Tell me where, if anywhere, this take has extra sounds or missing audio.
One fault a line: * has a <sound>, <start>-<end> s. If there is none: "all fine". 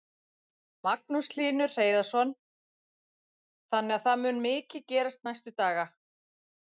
all fine